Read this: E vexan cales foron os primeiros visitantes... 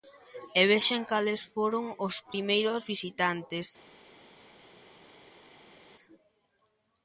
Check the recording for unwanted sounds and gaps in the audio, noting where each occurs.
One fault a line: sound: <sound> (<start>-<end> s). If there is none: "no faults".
no faults